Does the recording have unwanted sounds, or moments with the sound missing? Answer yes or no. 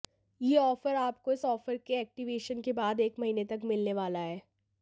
no